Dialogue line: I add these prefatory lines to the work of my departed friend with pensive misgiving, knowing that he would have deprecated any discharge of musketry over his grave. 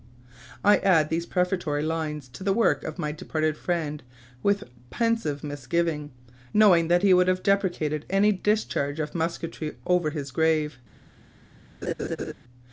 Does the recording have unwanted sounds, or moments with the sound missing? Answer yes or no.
yes